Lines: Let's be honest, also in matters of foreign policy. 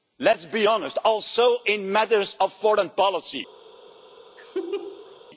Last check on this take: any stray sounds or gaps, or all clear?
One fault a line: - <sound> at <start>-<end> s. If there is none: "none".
- laugh at 4.4-5.2 s